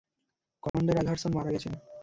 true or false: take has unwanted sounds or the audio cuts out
true